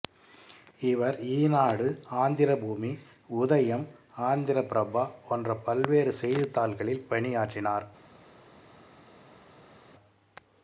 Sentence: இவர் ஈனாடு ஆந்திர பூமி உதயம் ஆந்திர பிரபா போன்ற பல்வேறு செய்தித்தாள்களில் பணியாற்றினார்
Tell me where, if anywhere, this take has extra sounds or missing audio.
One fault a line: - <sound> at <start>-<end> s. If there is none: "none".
none